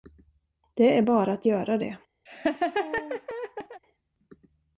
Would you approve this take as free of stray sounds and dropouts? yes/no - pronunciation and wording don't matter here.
no